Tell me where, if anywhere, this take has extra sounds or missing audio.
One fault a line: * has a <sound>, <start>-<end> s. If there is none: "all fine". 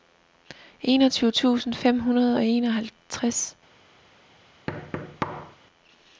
* has a thud, 4.7-5.6 s